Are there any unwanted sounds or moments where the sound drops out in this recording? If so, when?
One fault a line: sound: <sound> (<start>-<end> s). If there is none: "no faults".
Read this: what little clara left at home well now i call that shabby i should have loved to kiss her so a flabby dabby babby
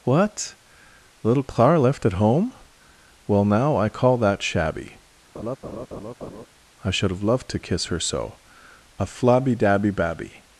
sound: laugh (5.3-6.5 s)